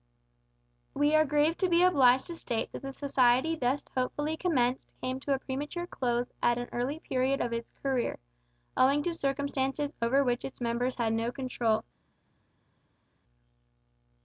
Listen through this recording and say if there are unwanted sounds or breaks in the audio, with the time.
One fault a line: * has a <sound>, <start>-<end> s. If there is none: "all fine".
all fine